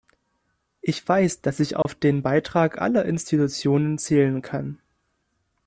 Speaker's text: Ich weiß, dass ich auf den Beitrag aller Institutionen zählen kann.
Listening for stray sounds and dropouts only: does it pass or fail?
fail